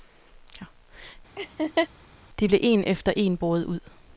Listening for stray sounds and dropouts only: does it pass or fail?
fail